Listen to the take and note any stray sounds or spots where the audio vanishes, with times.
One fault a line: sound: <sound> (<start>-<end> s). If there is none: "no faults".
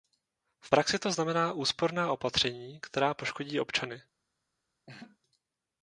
sound: laugh (4.9-5.2 s)